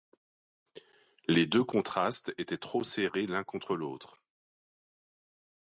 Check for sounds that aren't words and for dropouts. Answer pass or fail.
pass